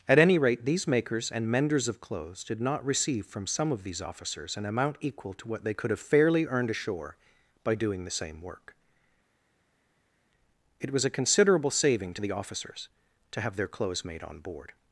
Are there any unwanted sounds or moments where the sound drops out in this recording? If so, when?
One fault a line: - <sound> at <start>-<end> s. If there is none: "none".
none